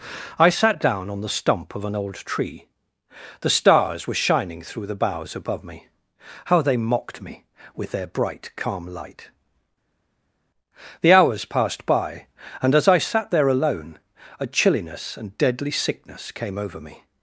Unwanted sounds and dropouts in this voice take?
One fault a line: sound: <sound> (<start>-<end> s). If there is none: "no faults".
no faults